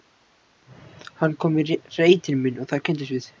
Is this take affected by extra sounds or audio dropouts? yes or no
no